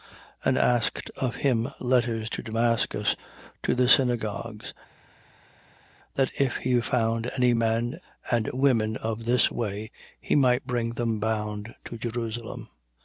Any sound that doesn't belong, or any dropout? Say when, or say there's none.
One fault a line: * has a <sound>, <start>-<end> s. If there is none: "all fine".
all fine